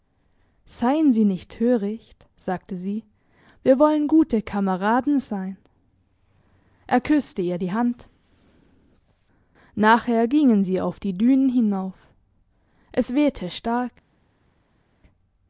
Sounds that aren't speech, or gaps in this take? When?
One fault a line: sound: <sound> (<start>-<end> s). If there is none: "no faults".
no faults